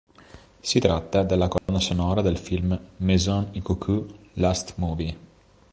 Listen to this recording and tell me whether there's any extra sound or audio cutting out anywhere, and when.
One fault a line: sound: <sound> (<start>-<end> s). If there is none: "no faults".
sound: dropout (1.6-1.7 s)